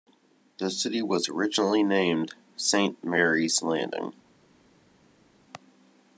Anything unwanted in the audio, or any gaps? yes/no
no